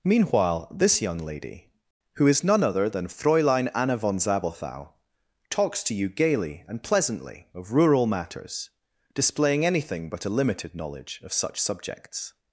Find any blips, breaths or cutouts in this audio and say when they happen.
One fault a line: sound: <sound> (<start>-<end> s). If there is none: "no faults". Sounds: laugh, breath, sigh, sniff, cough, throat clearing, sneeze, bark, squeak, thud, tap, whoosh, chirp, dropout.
no faults